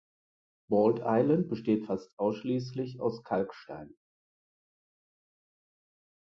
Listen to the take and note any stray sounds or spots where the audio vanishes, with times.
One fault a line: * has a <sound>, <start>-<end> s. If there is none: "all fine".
all fine